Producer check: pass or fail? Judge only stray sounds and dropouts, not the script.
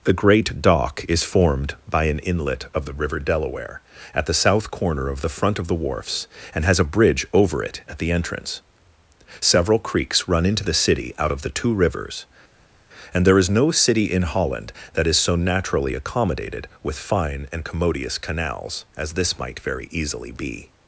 pass